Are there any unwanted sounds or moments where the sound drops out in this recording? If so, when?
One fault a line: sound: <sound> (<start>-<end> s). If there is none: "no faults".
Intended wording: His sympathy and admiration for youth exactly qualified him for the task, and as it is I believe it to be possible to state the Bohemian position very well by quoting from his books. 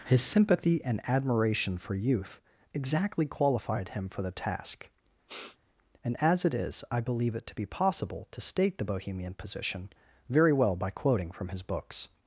sound: sniff (5.3-5.6 s)